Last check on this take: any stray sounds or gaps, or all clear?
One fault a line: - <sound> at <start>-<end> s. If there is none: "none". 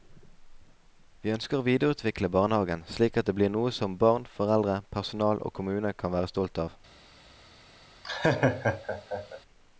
- laugh at 8.0-9.4 s